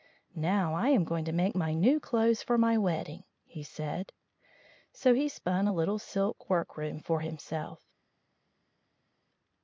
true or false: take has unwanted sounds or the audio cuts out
false